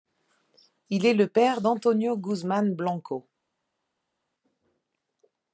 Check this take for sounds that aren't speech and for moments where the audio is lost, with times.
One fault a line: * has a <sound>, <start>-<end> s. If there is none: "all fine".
all fine